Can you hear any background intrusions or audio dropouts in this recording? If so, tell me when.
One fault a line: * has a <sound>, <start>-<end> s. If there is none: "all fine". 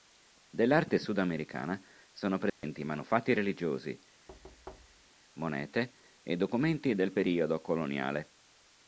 * has a dropout, 2.5-2.6 s
* has a thud, 4.3-5.1 s